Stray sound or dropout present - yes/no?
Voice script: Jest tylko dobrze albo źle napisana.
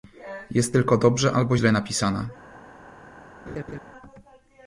yes